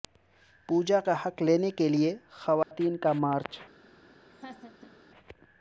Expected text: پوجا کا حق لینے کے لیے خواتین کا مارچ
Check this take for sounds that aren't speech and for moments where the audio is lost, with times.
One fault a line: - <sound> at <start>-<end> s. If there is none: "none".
- dropout at 2.6-2.7 s
- laugh at 4.3-4.9 s